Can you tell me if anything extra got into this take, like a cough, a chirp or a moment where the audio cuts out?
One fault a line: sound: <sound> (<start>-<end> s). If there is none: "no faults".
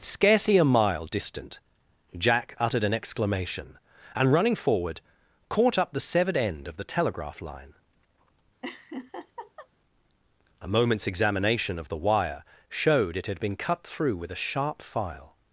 sound: laugh (8.6-9.7 s)